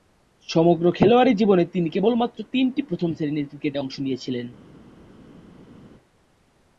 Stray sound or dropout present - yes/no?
no